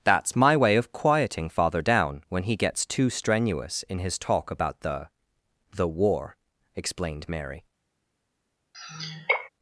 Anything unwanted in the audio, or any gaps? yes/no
yes